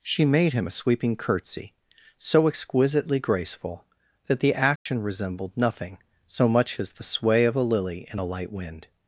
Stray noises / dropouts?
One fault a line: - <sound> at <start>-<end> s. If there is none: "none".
- dropout at 4.8-4.9 s